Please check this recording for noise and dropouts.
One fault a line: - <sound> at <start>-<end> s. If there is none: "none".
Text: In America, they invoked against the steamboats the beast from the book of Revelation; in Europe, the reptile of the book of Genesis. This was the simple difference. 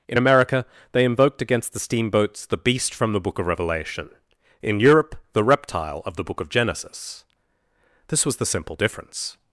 none